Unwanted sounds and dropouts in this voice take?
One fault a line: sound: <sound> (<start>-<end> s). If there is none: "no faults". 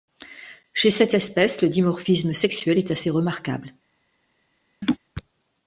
sound: laugh (4.8-5.0 s)